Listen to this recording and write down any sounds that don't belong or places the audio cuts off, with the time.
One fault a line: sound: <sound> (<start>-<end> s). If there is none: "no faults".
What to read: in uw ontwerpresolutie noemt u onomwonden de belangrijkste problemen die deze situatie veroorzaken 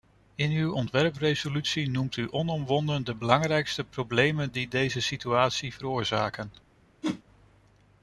sound: whoosh (7.0-7.2 s)